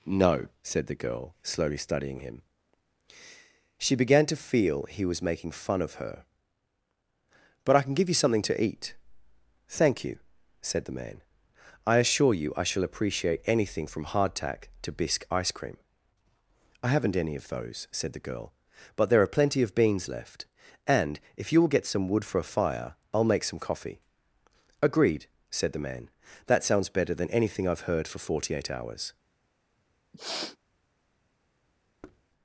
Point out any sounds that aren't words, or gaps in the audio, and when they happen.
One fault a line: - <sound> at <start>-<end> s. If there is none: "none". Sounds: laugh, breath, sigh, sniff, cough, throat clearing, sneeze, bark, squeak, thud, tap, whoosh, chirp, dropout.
- sniff at 30.1-30.6 s
- thud at 32.0-32.2 s